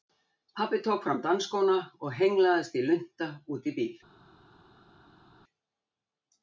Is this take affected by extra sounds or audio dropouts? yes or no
no